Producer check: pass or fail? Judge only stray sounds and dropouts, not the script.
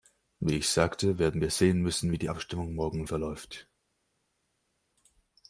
pass